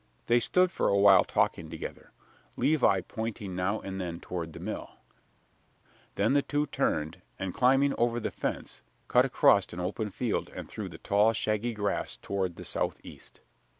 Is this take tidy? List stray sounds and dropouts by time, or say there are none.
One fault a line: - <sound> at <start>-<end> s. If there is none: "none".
none